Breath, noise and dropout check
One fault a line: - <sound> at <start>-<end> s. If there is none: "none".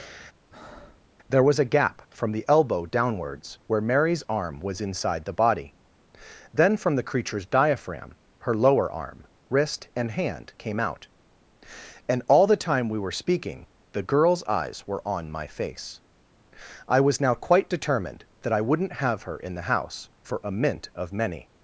- breath at 0.5-1.1 s